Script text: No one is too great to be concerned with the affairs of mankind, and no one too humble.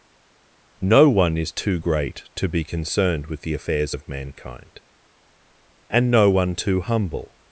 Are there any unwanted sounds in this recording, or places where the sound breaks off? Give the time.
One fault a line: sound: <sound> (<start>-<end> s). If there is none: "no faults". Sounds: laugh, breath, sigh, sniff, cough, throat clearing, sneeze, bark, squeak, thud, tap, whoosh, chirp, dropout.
no faults